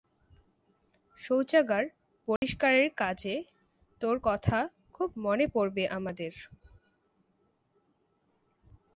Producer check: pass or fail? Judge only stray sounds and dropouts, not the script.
fail